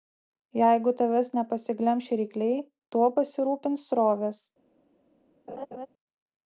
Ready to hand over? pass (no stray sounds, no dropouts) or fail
fail